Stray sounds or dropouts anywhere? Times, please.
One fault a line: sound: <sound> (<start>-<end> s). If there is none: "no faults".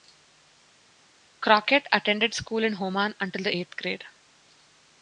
no faults